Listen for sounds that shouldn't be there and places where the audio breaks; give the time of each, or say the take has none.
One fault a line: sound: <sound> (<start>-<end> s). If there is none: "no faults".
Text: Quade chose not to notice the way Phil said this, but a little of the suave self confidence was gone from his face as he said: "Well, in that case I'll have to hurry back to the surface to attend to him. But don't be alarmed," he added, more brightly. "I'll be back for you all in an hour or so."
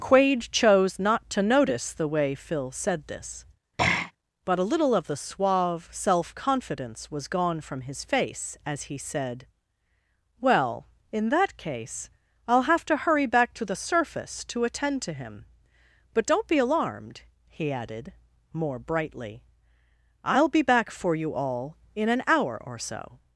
sound: throat clearing (3.8-4.1 s)